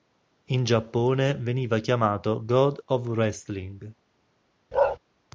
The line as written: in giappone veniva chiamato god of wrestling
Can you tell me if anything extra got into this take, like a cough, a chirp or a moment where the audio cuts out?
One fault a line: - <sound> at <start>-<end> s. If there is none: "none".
- bark at 4.7-5.0 s